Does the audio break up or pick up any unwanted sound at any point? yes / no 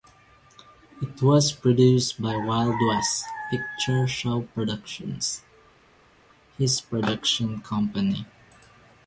no